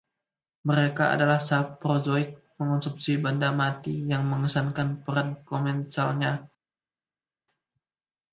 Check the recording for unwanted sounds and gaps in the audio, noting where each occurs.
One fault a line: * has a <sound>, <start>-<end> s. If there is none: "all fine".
all fine